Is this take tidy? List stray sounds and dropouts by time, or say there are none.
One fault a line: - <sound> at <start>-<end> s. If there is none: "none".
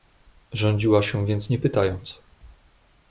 none